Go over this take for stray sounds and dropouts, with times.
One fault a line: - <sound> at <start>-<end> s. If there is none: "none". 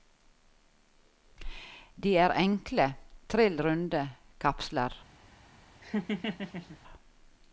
- laugh at 5.8-6.8 s